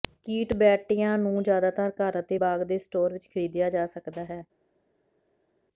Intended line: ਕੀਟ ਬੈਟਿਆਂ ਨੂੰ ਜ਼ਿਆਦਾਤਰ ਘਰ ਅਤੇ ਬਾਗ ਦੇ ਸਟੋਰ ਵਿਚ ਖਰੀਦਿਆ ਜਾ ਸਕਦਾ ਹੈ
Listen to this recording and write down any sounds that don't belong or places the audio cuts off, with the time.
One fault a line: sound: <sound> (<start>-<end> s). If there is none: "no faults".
no faults